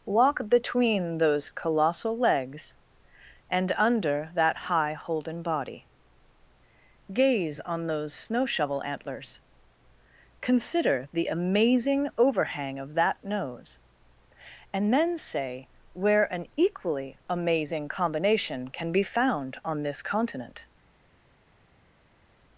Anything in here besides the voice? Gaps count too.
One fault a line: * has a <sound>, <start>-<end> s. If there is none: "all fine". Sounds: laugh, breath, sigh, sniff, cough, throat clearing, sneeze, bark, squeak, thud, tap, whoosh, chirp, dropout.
all fine